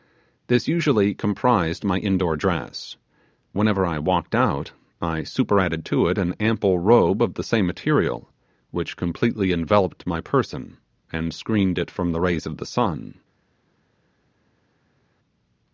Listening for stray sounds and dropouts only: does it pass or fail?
pass